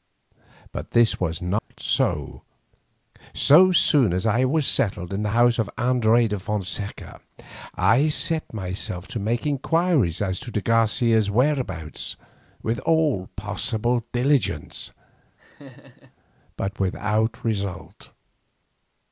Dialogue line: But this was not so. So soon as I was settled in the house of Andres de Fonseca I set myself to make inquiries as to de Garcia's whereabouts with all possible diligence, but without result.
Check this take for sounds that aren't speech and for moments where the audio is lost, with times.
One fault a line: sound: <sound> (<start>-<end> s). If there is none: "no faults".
sound: dropout (1.6-1.7 s)
sound: laugh (15.4-16.2 s)